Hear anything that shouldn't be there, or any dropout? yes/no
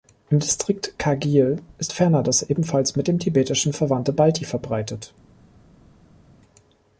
no